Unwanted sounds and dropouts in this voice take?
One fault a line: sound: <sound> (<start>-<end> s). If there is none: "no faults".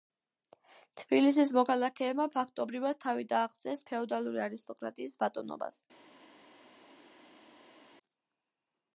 no faults